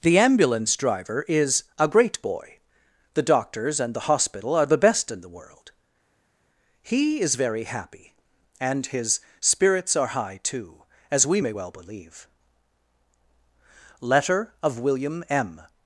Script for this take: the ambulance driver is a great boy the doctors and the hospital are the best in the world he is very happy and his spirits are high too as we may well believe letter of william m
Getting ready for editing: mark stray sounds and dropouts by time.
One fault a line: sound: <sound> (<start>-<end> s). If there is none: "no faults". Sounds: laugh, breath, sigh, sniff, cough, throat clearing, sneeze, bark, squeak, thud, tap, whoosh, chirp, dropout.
no faults